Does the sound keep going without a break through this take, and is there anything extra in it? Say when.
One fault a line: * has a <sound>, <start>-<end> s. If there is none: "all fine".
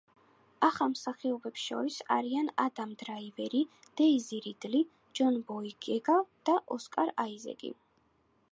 all fine